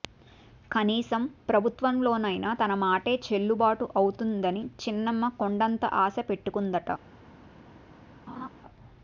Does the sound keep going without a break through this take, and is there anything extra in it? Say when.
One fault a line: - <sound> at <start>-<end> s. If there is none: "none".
- laugh at 8.3-8.5 s